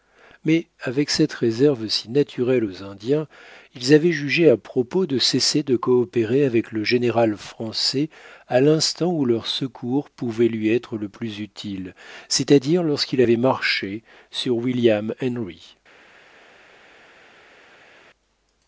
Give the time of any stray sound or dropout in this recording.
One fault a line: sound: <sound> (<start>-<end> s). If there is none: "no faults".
no faults